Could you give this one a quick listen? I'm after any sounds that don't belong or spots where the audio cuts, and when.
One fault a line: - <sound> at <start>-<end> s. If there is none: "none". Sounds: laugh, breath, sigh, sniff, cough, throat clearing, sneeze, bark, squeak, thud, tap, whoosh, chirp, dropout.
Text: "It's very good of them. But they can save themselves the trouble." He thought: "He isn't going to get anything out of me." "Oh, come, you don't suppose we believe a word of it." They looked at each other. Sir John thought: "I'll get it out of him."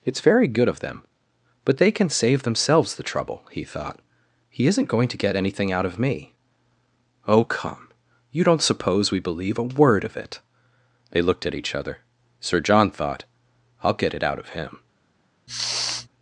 - sniff at 15.5-16.1 s